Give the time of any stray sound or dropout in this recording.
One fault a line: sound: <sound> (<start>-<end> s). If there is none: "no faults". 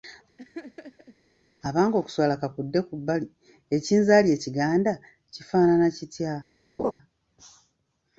sound: laugh (0.4-1.2 s)
sound: laugh (6.8-6.9 s)